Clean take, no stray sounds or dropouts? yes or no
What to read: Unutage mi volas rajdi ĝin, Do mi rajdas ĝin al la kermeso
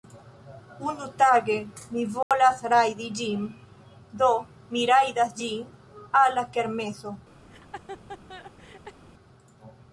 no